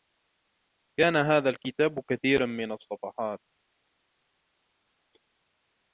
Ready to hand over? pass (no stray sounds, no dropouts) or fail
pass